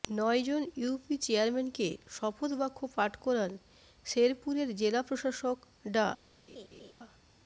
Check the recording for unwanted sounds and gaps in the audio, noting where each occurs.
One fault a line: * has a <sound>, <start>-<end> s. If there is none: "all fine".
* has a laugh, 6.5-6.9 s